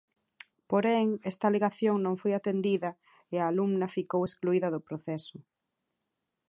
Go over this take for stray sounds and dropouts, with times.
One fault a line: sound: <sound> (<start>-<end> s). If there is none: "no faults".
no faults